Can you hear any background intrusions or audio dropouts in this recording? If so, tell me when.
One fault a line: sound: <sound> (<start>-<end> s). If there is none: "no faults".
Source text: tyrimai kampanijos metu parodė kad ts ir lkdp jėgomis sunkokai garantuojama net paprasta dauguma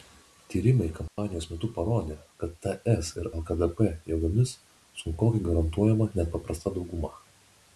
sound: dropout (1.1-1.2 s)